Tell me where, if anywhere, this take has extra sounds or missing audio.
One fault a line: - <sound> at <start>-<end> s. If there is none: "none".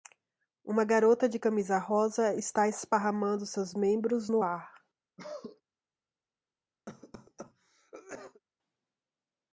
- cough at 5.2-5.6 s
- cough at 6.9-8.4 s